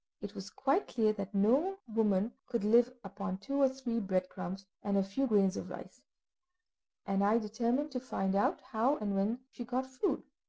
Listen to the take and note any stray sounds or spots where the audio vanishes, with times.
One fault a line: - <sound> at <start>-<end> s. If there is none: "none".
none